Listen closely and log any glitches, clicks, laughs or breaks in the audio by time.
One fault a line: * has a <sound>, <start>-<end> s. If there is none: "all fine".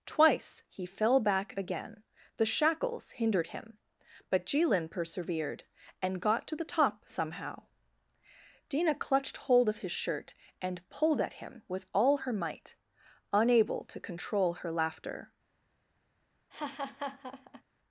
* has a laugh, 16.5-17.6 s